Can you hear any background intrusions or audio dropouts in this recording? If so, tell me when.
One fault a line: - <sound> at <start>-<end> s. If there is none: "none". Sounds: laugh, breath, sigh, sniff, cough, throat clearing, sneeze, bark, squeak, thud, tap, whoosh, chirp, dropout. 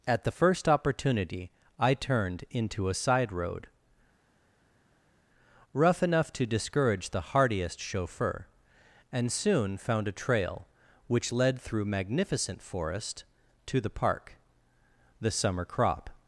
none